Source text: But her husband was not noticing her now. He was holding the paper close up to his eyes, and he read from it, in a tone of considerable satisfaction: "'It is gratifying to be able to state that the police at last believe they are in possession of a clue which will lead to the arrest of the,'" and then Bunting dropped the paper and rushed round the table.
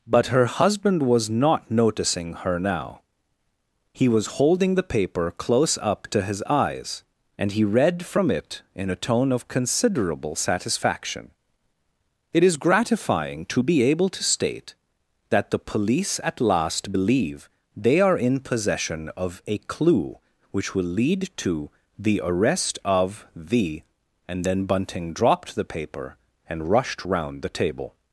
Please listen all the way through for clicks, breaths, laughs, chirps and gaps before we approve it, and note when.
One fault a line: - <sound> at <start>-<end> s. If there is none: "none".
none